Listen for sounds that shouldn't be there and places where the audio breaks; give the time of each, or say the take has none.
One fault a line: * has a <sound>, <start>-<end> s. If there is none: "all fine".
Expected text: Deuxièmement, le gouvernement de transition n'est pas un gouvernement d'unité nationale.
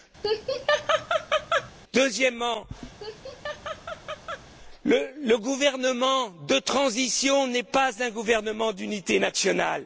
* has a laugh, 0.2-1.7 s
* has a laugh, 3.0-4.5 s